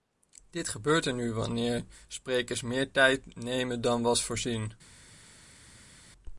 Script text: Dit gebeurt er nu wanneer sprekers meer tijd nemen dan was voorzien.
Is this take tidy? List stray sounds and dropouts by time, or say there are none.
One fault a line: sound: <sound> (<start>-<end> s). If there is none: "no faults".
no faults